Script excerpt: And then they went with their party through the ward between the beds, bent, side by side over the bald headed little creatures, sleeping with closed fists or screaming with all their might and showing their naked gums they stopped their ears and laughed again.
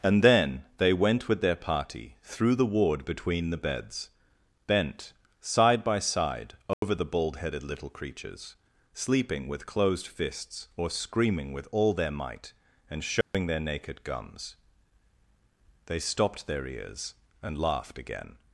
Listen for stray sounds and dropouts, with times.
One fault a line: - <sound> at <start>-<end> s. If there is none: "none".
- dropout at 6.7-6.8 s
- dropout at 13.2-13.3 s